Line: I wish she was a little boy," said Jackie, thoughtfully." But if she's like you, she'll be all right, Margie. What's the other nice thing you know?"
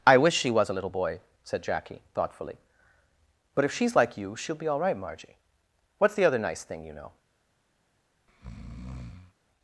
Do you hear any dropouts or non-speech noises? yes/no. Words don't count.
yes